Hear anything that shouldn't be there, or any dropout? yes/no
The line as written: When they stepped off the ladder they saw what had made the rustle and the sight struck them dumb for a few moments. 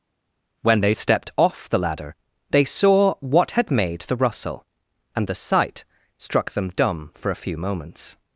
no